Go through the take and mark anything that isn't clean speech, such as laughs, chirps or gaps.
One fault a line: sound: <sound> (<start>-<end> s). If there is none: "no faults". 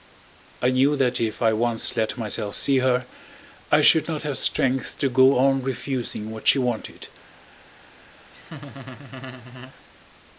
sound: laugh (8.3-9.8 s)